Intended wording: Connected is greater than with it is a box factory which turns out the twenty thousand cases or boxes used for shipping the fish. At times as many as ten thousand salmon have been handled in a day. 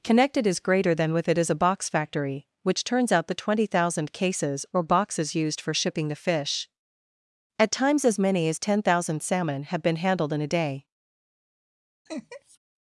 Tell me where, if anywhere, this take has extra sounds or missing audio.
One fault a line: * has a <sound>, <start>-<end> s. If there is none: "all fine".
* has a laugh, 12.1-12.6 s